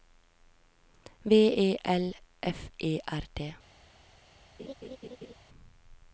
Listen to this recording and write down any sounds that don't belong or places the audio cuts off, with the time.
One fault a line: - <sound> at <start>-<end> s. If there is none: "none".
- laugh at 4.6-5.3 s